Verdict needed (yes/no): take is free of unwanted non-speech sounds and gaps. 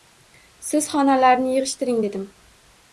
yes